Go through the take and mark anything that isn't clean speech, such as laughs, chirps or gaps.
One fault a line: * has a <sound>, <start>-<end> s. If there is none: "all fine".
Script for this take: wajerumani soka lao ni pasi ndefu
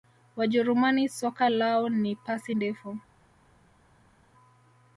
all fine